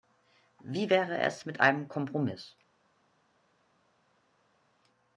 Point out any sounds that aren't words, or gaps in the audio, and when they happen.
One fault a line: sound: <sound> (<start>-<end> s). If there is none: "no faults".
no faults